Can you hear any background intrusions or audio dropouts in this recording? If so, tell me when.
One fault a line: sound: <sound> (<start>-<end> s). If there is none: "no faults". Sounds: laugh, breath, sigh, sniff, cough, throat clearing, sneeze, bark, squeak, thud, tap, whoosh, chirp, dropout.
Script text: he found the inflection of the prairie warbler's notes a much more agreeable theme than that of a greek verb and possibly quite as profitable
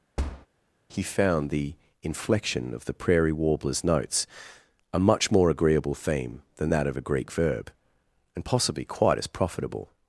sound: thud (0.2-0.5 s)